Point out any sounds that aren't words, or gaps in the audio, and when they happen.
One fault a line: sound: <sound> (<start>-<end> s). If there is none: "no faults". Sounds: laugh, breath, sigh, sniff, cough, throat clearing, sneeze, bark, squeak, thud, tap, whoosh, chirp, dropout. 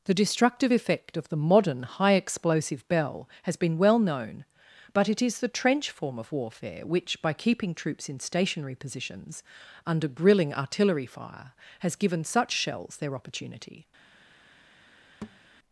sound: thud (15.2-15.4 s)